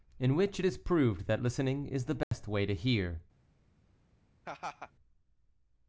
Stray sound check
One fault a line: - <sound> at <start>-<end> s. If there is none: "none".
- dropout at 2.2-2.3 s
- laugh at 4.5-4.9 s